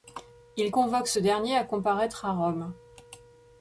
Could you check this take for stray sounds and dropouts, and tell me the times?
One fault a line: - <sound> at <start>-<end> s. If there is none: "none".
none